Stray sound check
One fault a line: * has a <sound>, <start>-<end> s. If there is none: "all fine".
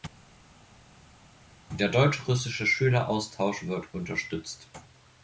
all fine